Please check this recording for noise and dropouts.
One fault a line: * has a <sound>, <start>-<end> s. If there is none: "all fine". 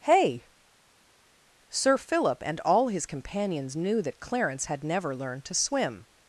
all fine